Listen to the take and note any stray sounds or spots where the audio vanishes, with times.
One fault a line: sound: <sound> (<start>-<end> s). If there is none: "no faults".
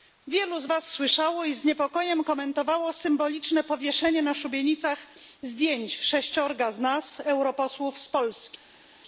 no faults